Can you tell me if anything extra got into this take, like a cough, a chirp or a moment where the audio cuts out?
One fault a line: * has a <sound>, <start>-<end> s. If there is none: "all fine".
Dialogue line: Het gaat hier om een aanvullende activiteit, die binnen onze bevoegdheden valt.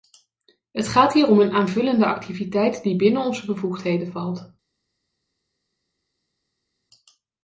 all fine